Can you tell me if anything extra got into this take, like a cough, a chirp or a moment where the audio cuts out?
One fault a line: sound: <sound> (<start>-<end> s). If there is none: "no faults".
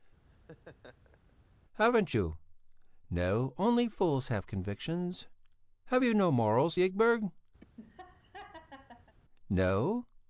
sound: laugh (0.3-1.3 s)
sound: laugh (7.6-9.1 s)